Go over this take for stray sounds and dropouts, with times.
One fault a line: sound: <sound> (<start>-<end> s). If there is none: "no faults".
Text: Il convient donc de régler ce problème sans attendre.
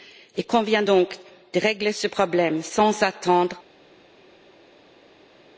no faults